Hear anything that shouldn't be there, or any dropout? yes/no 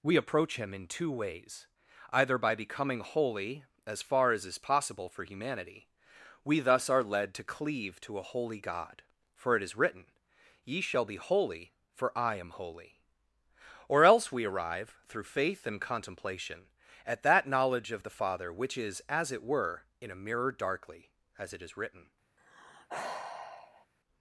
yes